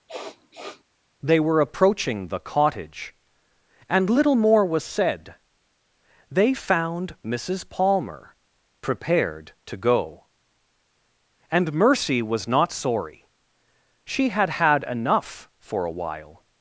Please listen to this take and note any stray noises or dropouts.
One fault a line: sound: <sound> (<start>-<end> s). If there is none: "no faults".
sound: sniff (0.1-0.8 s)